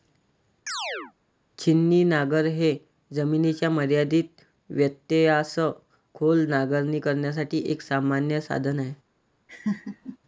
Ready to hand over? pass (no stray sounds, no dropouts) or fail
fail